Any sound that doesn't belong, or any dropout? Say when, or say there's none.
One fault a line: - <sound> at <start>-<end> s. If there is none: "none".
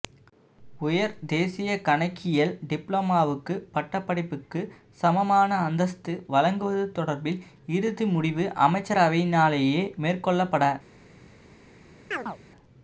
- chirp at 12.1-12.4 s